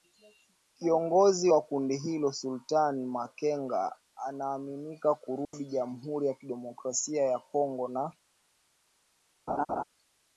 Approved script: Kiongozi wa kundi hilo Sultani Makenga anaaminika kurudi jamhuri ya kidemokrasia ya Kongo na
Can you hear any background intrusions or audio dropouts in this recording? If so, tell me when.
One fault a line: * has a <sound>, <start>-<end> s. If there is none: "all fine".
* has a dropout, 5.4-5.5 s
* has a laugh, 9.5-9.8 s